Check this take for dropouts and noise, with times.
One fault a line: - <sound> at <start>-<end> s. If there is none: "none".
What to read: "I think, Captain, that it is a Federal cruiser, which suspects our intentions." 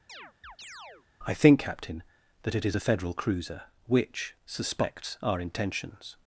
- chirp at 0.1-1.1 s